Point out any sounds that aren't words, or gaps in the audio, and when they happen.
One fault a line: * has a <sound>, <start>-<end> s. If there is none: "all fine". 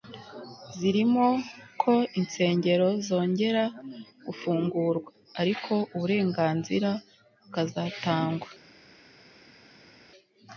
all fine